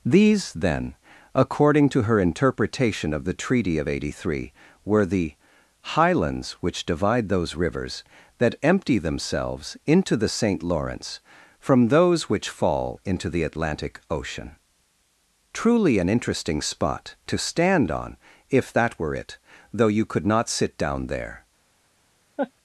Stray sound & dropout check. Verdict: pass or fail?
fail